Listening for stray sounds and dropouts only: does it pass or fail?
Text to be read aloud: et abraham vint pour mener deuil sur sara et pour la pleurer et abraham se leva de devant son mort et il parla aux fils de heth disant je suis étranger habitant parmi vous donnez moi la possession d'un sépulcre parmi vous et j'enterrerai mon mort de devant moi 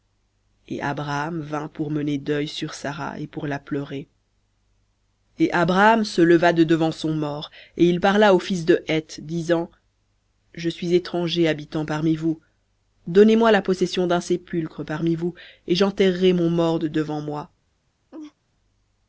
fail